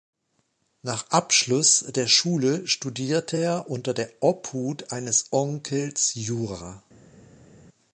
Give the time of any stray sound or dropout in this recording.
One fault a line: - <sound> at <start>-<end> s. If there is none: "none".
none